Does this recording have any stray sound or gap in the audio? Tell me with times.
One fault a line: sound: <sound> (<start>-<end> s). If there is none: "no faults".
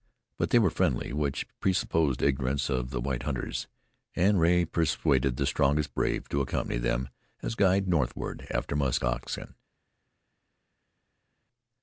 no faults